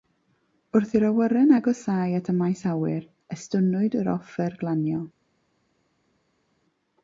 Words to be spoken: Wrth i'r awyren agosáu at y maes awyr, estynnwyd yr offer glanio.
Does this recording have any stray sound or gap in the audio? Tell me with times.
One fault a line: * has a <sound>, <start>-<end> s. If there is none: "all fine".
all fine